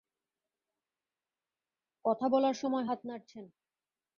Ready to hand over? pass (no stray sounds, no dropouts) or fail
pass